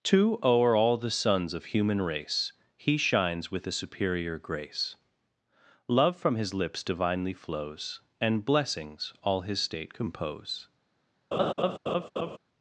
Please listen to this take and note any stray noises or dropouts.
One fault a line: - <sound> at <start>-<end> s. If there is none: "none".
- laugh at 11.3-12.4 s